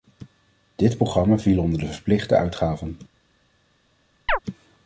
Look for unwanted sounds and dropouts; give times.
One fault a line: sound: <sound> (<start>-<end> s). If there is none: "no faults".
sound: chirp (4.3-4.4 s)